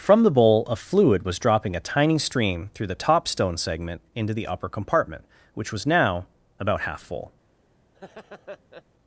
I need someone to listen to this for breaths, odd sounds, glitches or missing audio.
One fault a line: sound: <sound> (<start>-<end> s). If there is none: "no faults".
sound: laugh (7.9-8.8 s)